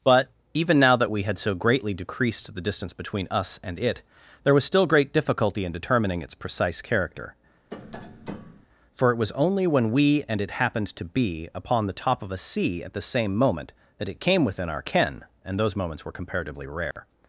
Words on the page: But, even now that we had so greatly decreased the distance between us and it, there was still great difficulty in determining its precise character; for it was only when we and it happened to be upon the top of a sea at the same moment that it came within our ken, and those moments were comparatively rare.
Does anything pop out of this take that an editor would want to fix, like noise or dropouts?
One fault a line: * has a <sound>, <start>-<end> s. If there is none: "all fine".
* has a tap, 7.7-8.7 s
* has a dropout, 16.9-17.0 s